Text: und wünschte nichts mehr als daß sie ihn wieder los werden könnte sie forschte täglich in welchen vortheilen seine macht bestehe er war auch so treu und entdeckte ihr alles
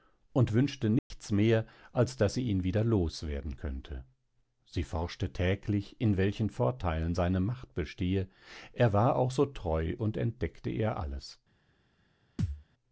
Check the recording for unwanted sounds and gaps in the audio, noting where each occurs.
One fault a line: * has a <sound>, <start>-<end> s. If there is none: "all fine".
* has a dropout, 1.0-1.1 s
* has a thud, 12.4-12.6 s